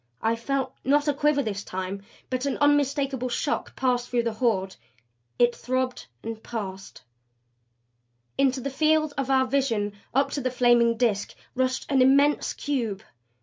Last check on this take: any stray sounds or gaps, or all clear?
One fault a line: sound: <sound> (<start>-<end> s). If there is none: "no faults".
no faults